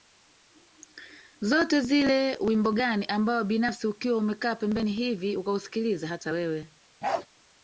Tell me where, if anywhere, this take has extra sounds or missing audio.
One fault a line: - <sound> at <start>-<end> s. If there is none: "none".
- bark at 7.0-7.3 s